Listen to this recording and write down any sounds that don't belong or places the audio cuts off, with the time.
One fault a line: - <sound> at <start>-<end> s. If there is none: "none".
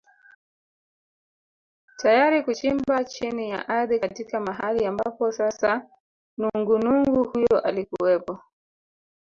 none